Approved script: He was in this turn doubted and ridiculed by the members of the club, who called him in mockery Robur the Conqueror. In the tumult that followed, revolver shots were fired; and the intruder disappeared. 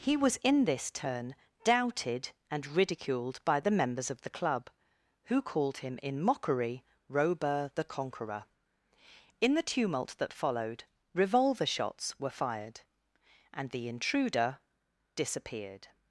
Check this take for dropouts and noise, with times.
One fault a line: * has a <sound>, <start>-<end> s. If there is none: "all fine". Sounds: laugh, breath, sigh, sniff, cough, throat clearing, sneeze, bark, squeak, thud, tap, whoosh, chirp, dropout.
all fine